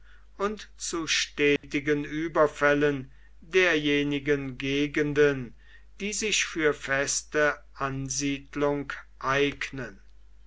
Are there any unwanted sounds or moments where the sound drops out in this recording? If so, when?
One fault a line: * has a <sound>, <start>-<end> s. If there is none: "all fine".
* has a dropout, 1.6-1.6 s